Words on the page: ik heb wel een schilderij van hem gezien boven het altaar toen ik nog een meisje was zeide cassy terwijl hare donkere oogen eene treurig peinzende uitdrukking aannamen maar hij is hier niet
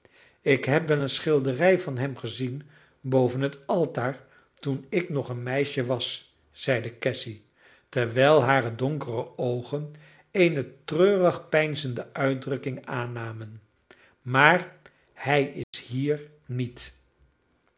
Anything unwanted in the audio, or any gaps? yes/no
yes